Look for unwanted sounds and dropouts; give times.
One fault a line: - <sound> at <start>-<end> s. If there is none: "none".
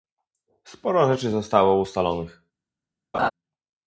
- laugh at 3.1-3.3 s